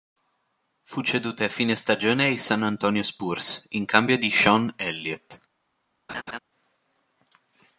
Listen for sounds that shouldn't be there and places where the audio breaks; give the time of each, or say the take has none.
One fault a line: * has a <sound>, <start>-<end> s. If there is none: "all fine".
* has a laugh, 6.1-6.4 s